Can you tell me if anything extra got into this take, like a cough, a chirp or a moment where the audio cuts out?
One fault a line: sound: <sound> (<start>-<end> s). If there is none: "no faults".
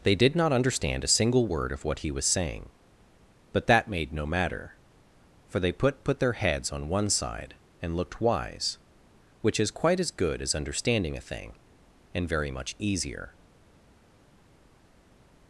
no faults